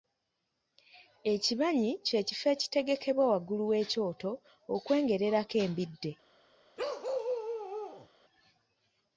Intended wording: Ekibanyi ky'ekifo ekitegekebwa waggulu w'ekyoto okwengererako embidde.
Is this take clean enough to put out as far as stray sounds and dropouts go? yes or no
no